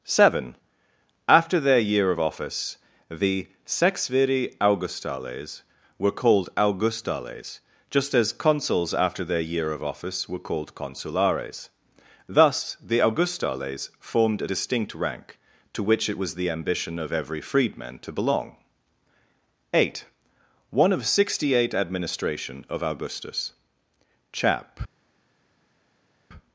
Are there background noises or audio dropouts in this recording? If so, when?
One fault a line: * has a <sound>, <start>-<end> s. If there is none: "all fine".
all fine